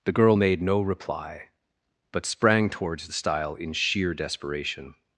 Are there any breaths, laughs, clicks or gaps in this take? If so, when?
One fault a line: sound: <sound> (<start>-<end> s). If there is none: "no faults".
no faults